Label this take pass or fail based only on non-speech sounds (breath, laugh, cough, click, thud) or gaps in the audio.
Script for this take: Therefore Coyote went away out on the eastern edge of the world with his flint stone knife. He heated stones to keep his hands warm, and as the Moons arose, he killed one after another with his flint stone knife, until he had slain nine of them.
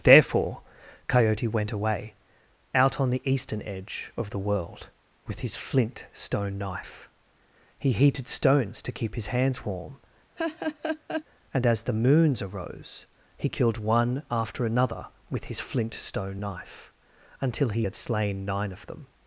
fail